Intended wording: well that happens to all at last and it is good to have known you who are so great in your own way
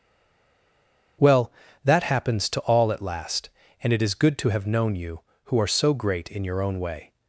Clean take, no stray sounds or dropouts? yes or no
yes